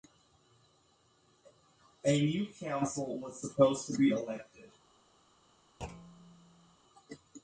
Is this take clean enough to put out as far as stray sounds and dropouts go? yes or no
no